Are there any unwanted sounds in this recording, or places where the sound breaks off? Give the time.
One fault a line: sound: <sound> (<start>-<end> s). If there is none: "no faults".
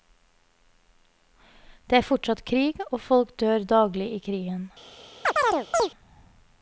sound: chirp (5.2-5.9 s)